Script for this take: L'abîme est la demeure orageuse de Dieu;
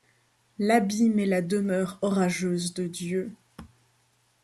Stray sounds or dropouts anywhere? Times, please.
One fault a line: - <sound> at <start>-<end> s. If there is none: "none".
none